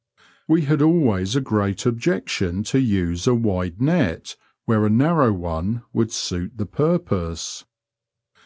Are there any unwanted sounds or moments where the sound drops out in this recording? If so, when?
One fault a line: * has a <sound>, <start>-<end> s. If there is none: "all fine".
all fine